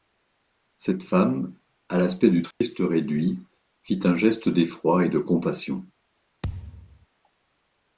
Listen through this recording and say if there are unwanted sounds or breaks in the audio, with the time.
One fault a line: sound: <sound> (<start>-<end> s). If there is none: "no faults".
sound: dropout (2.5-2.6 s)
sound: thud (6.4-7.1 s)